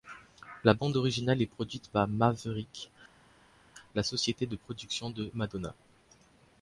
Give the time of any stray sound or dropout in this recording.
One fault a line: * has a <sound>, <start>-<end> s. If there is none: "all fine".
all fine